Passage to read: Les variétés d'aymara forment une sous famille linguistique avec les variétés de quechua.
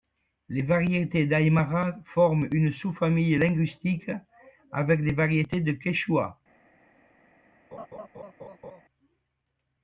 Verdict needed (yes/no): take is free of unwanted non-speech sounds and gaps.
no